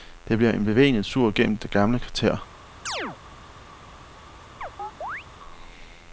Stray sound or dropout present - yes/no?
yes